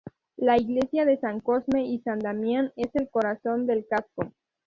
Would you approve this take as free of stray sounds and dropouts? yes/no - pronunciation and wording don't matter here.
yes